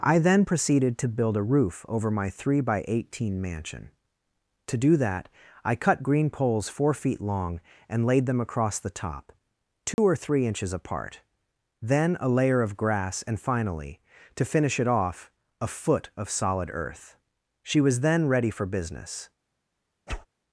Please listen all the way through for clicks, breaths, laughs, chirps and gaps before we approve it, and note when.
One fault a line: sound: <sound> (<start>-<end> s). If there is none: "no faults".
sound: dropout (9.9-10.0 s)
sound: whoosh (20.1-20.3 s)